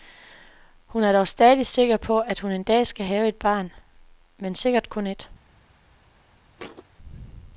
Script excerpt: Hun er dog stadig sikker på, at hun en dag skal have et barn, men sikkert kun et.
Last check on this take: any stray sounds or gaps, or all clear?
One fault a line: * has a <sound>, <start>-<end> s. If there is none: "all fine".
* has a thud, 6.6-6.8 s